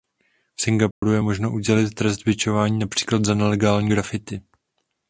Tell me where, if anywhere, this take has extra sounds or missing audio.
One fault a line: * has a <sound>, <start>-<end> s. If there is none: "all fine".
* has a dropout, 0.9-1.0 s